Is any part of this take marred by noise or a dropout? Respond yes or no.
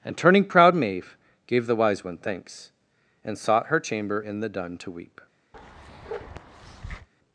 yes